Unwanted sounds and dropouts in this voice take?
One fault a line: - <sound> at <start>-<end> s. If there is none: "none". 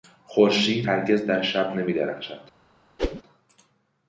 - whoosh at 3.0-3.2 s